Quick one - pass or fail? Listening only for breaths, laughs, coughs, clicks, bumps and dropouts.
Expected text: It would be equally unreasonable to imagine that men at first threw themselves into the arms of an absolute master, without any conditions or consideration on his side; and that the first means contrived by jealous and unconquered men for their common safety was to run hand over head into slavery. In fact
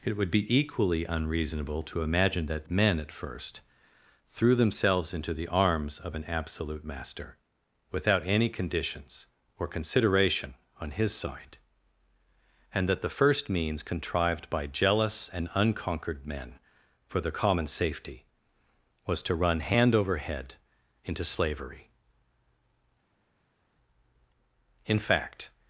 pass